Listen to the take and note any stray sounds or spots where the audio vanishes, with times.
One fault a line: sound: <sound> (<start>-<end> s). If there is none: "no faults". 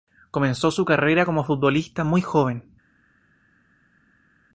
no faults